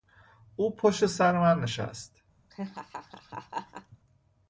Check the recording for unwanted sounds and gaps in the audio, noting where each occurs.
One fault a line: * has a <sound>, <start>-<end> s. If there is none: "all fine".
* has a laugh, 2.5-4.0 s